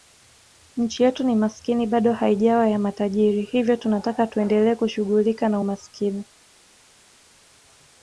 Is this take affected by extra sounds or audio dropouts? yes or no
no